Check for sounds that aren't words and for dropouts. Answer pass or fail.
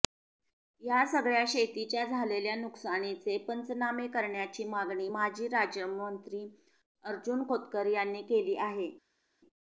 pass